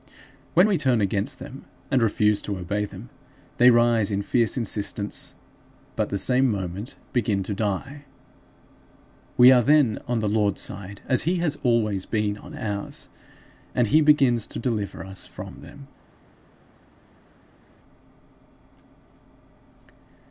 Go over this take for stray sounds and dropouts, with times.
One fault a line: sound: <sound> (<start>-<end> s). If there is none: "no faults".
no faults